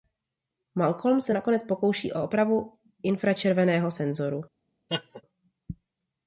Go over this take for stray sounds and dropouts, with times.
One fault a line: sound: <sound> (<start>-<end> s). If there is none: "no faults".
sound: laugh (4.9-5.2 s)